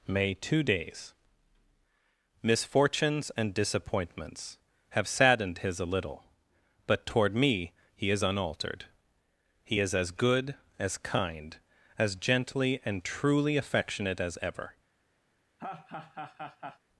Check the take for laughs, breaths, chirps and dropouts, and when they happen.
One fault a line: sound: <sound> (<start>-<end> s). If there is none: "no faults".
sound: laugh (15.6-16.8 s)